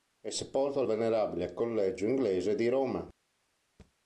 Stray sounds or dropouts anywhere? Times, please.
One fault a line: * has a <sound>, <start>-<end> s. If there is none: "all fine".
* has a thud, 3.8-3.9 s